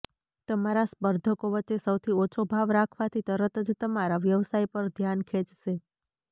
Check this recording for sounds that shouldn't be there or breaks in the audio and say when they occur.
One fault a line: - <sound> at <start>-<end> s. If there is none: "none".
none